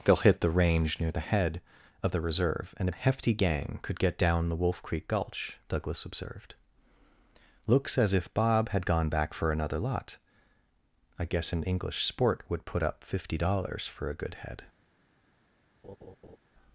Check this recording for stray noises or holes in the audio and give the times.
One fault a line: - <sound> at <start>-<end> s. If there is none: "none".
- laugh at 15.8-16.4 s